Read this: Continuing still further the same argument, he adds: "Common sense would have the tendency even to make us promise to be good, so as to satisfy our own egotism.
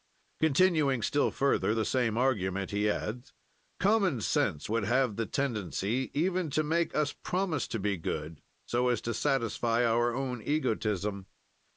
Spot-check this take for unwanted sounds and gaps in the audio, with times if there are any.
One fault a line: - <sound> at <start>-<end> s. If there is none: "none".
none